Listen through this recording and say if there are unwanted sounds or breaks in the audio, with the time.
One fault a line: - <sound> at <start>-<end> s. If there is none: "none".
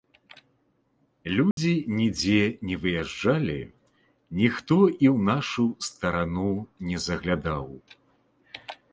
- dropout at 1.5-1.6 s